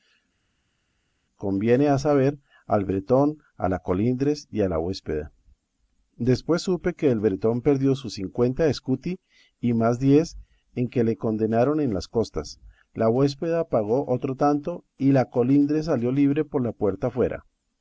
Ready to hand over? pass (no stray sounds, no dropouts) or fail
pass